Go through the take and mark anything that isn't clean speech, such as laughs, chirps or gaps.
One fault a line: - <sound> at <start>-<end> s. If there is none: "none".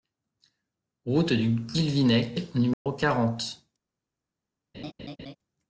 - dropout at 2.7-2.9 s
- laugh at 4.7-5.4 s